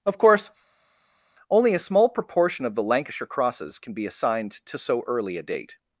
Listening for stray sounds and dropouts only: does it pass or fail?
pass